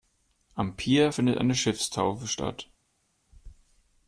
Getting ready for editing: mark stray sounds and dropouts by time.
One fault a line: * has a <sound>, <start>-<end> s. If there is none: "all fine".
all fine